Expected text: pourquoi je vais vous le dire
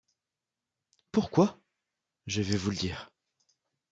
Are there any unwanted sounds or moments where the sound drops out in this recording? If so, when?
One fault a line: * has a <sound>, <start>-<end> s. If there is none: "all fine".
all fine